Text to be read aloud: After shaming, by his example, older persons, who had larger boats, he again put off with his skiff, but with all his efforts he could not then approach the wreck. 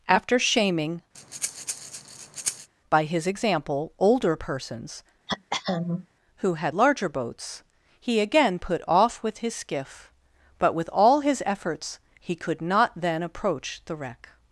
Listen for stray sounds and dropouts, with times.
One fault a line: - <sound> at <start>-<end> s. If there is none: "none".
- breath at 1.1-2.7 s
- throat clearing at 5.3-6.1 s